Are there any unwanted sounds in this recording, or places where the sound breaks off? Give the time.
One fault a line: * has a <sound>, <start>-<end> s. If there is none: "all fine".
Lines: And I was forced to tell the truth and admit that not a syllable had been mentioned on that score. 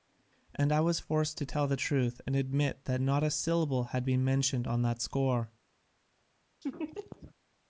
* has a laugh, 6.6-7.3 s